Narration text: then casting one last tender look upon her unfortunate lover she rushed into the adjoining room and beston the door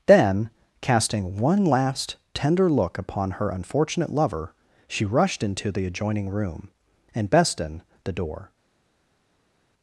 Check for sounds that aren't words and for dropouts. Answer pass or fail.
pass